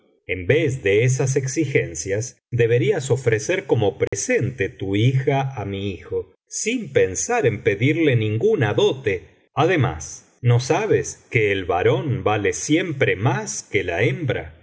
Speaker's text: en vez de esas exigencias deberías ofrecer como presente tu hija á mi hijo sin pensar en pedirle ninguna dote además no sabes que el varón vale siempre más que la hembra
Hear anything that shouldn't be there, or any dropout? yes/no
yes